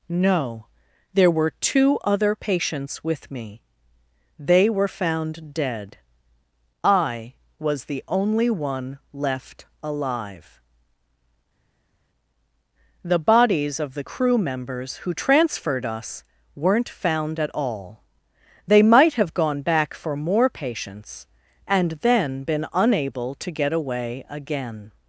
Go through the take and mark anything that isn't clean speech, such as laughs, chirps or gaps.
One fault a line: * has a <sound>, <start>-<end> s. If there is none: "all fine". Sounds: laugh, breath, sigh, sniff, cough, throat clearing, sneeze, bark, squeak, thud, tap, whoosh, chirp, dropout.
all fine